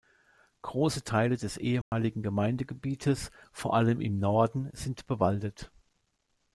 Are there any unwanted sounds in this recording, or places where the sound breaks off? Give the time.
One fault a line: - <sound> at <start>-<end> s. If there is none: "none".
- dropout at 1.8-1.9 s